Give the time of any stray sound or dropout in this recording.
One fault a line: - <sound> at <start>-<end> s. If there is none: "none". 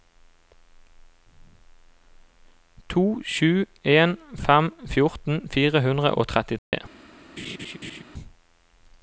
- dropout at 6.6-6.7 s
- laugh at 7.4-8.0 s